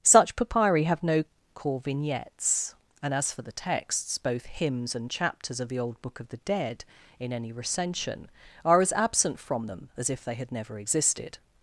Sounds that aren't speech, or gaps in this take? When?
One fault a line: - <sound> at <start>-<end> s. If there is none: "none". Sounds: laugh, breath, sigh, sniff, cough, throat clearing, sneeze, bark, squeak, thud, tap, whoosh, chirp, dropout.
none